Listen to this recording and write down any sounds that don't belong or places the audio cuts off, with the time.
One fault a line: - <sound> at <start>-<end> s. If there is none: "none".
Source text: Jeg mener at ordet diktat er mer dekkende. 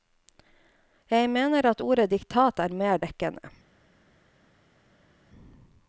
none